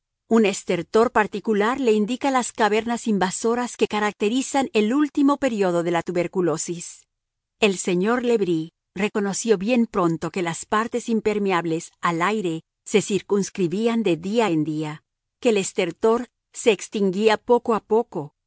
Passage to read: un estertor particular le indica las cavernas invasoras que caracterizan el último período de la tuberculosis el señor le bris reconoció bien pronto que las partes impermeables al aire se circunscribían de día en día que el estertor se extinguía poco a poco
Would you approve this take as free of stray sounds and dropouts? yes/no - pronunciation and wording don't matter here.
yes